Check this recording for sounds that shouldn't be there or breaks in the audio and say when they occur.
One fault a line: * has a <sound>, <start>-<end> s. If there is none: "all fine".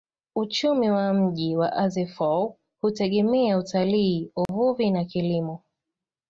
* has a dropout, 4.5-4.5 s